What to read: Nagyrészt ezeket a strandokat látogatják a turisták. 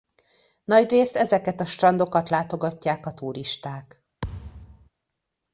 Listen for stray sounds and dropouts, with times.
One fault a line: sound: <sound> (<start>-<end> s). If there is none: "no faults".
sound: thud (4.2-4.9 s)